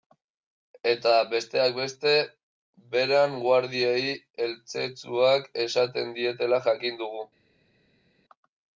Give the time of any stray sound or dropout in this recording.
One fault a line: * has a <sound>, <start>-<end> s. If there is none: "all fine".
all fine